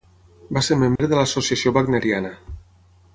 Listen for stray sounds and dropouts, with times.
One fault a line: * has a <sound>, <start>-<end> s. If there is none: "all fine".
* has a dropout, 1.0-1.0 s